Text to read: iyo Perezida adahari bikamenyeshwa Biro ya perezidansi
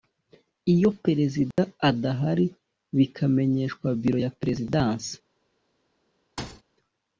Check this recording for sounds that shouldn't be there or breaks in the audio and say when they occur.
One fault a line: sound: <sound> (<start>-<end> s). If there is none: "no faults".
sound: dropout (1.5-1.6 s)
sound: thud (6.4-6.6 s)